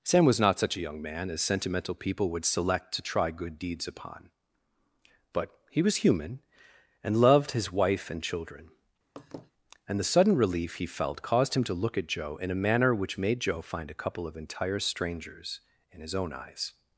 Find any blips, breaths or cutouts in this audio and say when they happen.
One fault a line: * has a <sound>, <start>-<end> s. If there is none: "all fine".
* has a laugh, 9.2-9.5 s